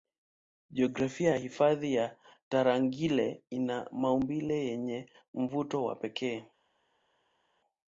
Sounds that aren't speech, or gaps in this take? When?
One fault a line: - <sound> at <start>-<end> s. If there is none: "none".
none